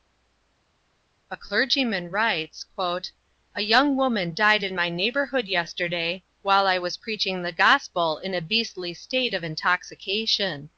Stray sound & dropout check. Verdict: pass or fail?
pass